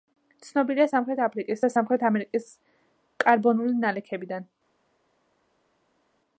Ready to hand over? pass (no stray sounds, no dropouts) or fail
pass